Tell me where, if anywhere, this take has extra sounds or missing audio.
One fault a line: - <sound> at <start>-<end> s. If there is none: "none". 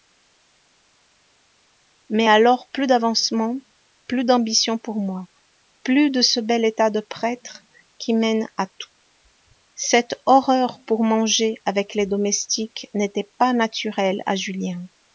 none